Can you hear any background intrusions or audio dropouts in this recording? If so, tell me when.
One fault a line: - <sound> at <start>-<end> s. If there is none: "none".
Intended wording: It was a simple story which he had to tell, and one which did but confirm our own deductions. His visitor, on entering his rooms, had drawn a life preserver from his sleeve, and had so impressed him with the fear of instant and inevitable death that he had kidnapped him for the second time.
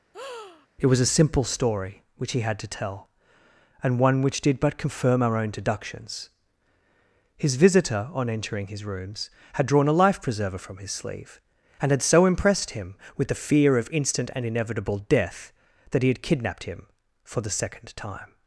- breath at 0.1-0.7 s